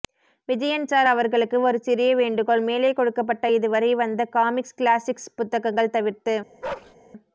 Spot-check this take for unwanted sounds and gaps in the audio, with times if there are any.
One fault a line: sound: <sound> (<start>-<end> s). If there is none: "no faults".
sound: bark (6.6-6.9 s)